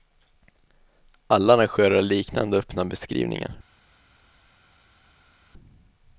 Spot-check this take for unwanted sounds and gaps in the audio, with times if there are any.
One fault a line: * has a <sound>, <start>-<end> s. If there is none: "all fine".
all fine